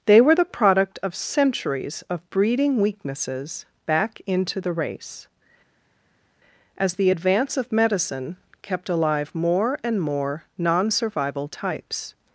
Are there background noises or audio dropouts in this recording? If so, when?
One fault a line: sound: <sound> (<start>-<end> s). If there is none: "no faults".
no faults